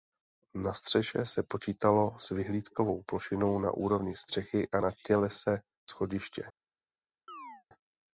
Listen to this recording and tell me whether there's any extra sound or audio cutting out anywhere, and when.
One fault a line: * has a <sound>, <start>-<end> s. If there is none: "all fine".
* has a chirp, 7.3-7.6 s